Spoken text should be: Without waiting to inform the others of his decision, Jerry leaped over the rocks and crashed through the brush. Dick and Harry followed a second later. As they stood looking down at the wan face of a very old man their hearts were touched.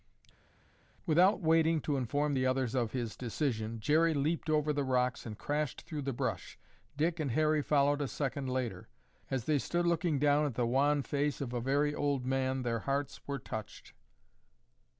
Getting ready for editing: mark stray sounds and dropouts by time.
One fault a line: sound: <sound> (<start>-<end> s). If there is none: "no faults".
no faults